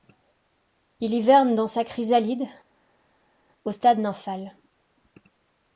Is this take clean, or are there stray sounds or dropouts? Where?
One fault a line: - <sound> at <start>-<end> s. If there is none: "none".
none